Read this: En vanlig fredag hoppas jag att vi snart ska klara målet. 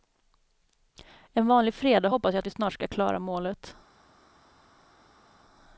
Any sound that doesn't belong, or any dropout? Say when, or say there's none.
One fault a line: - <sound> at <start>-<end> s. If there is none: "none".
none